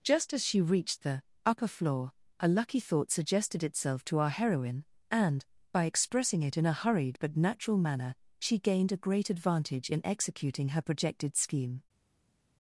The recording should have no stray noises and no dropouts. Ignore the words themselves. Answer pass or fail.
pass